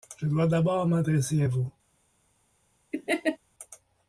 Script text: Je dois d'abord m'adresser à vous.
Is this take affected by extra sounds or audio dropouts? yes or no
yes